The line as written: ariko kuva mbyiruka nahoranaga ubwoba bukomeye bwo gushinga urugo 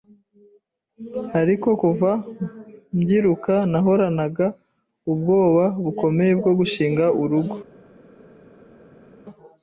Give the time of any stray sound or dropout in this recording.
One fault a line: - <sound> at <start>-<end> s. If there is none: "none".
none